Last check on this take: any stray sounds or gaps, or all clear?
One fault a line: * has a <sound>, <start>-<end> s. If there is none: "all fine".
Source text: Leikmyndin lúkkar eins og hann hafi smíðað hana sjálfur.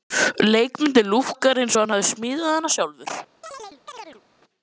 * has a chirp, 3.4-4.2 s